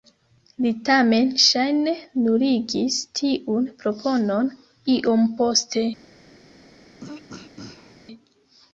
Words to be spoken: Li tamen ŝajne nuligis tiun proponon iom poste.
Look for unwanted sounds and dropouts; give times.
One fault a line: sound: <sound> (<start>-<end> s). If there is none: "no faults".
sound: throat clearing (7.0-8.0 s)